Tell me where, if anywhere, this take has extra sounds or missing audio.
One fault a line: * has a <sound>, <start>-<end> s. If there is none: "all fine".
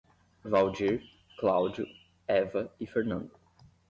all fine